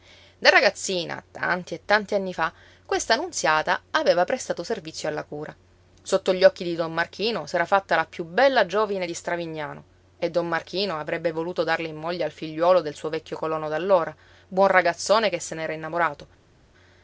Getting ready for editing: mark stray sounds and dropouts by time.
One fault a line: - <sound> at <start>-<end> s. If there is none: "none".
none